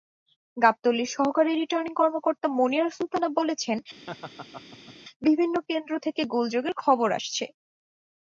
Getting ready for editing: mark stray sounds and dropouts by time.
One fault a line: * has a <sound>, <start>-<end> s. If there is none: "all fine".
* has a laugh, 4.1-5.0 s